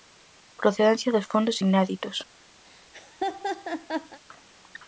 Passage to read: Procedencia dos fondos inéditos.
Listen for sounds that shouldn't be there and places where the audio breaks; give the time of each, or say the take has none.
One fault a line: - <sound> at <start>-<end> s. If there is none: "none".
- laugh at 2.6-4.2 s